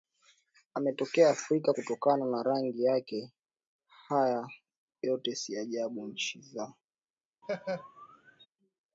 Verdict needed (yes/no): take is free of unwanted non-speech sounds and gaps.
no